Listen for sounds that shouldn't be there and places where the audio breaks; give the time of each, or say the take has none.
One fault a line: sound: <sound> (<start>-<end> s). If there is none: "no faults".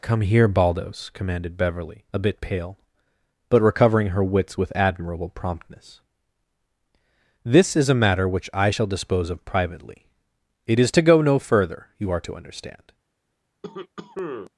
sound: cough (13.6-14.5 s)